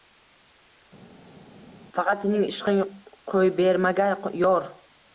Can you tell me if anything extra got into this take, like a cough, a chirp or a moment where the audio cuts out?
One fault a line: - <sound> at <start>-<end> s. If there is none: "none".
none